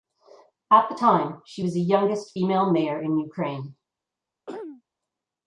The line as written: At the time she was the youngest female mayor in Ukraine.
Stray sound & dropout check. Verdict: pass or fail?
fail